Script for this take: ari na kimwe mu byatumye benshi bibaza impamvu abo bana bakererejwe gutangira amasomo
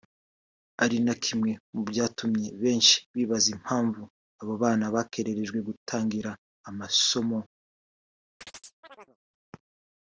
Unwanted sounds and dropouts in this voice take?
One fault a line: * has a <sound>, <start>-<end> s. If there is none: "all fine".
* has a chirp, 8.4-9.2 s